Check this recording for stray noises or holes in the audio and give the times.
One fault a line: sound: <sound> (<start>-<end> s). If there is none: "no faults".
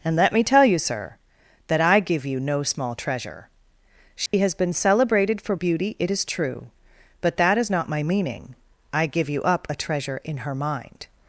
sound: dropout (4.3-4.3 s)